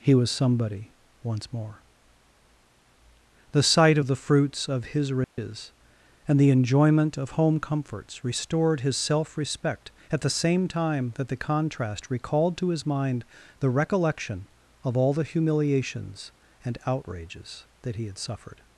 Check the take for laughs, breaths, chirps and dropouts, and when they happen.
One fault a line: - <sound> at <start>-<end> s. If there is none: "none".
- dropout at 5.2-5.4 s